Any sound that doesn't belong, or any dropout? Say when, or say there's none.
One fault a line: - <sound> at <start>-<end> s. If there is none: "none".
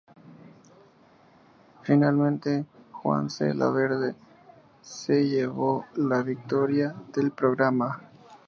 none